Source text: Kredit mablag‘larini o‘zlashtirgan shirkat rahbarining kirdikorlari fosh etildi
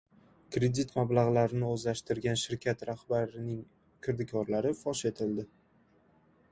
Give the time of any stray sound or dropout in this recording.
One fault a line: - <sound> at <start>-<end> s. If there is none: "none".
none